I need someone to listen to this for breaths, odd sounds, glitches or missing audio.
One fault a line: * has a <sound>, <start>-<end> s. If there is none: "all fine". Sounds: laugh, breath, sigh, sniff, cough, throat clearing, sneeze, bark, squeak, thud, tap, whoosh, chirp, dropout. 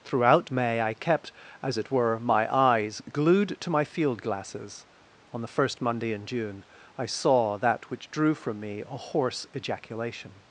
all fine